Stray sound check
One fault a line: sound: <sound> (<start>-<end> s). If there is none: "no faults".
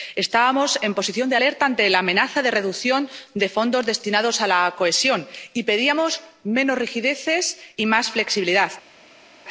no faults